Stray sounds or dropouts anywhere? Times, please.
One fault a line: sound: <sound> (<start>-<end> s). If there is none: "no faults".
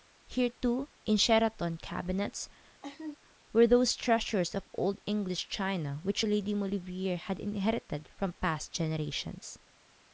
sound: laugh (2.8-3.2 s)